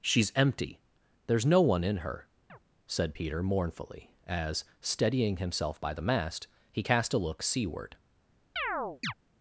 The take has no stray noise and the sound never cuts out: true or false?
false